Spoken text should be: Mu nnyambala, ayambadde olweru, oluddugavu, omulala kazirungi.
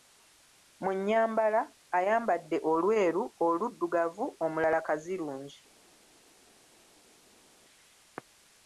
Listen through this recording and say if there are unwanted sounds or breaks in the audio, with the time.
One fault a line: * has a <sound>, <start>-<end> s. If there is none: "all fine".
all fine